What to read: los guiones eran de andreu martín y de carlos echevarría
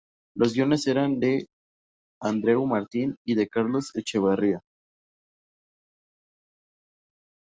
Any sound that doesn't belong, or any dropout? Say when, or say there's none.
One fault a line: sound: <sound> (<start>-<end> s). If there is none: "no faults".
no faults